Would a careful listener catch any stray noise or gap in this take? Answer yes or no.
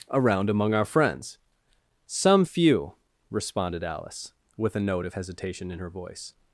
no